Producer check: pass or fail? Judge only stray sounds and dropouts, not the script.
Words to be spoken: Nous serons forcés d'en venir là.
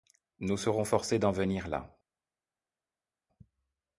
pass